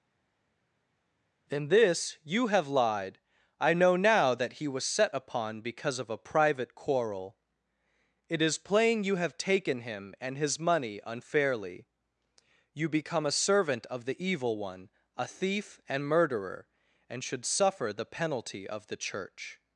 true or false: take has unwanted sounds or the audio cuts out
false